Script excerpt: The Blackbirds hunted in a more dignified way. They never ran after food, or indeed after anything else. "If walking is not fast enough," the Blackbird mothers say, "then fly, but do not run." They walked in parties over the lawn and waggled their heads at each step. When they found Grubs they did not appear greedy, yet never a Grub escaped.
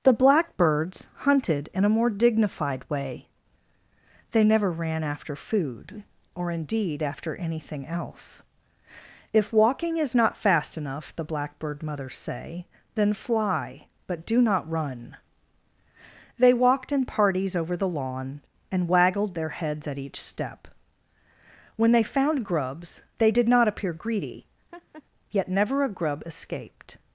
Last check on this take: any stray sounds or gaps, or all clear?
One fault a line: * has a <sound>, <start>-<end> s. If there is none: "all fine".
* has a laugh, 24.7-25.0 s